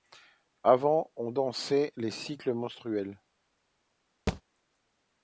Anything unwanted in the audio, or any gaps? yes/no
yes